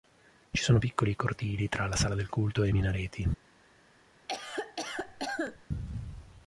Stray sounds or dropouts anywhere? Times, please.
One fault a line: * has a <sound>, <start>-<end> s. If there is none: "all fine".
* has a cough, 4.3-5.6 s